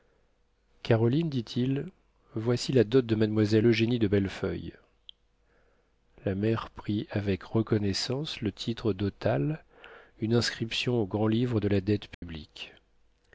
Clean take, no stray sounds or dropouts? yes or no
no